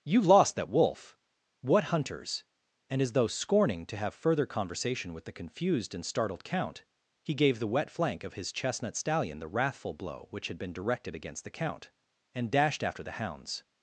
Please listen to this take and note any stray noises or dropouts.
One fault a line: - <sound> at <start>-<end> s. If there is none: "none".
none